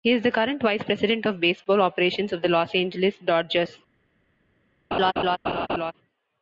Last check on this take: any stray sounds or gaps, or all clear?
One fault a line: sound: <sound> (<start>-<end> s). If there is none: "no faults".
sound: laugh (4.9-5.9 s)